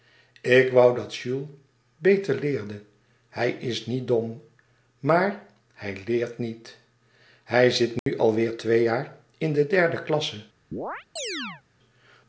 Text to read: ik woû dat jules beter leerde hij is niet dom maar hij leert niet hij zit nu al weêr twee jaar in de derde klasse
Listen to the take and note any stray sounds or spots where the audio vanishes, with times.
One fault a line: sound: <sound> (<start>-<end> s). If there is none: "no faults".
sound: dropout (8.0-8.1 s)
sound: chirp (10.7-11.6 s)